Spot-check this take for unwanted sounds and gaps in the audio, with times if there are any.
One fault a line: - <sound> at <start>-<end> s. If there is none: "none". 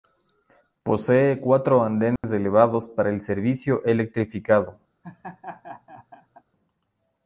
- dropout at 2.2-2.2 s
- laugh at 5.0-6.4 s